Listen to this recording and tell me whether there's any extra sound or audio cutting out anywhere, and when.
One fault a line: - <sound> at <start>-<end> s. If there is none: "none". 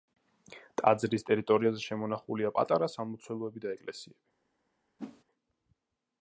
- whoosh at 5.0-5.2 s